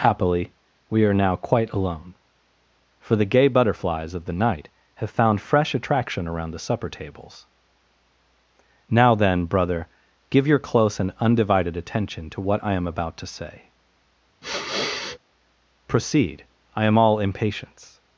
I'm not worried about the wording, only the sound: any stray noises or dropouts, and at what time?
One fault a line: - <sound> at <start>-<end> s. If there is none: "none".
- sniff at 14.4-15.2 s